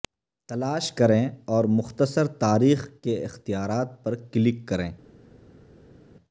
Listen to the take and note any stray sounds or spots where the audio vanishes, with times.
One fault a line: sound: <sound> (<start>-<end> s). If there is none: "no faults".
no faults